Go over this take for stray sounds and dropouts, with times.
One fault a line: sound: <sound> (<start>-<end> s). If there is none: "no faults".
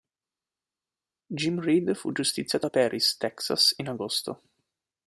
no faults